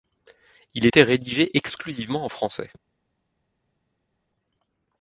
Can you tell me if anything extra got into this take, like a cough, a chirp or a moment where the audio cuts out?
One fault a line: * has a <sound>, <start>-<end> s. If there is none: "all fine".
all fine